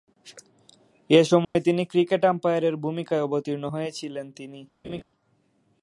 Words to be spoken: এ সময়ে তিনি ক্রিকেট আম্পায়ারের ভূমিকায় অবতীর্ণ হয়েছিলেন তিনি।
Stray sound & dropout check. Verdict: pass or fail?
fail